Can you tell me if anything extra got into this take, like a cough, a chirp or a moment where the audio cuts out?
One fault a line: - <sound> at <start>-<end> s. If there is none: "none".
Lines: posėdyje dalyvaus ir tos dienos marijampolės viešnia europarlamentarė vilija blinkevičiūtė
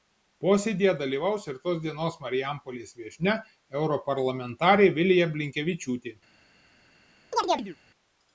- chirp at 7.3-7.8 s